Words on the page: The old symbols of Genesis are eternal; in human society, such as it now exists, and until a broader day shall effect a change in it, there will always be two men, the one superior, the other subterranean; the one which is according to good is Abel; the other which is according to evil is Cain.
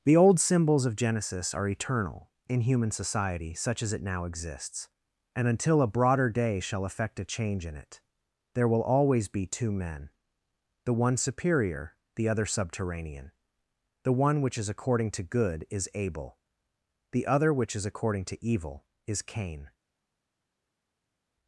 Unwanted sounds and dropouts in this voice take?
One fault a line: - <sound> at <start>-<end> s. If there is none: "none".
none